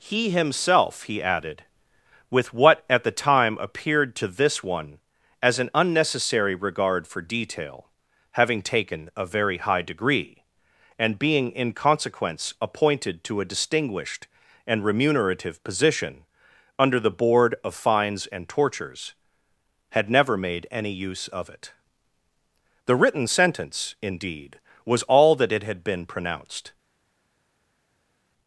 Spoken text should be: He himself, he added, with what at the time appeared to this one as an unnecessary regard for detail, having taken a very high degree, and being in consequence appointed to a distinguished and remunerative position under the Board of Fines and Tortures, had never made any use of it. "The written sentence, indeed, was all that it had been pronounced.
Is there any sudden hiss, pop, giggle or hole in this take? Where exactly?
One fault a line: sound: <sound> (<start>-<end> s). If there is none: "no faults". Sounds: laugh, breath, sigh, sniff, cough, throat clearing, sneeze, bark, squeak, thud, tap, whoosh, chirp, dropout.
no faults